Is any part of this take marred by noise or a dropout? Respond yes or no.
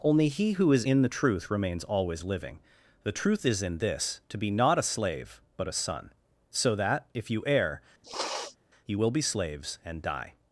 yes